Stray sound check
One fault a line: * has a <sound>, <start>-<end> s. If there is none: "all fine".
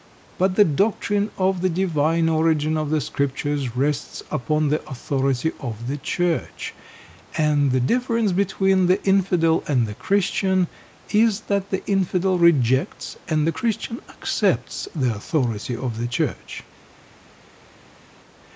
all fine